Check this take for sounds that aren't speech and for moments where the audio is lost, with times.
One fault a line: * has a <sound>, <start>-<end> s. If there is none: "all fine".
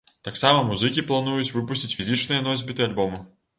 all fine